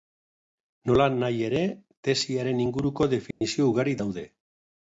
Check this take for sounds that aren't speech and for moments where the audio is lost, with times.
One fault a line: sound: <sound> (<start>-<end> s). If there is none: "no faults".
sound: dropout (3.3-3.4 s)